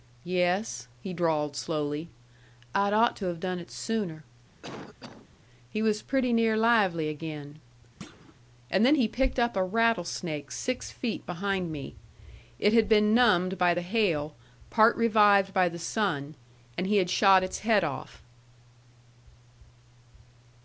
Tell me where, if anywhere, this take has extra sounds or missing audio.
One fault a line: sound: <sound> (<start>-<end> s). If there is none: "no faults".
sound: cough (4.6-5.3 s)
sound: thud (8.0-8.3 s)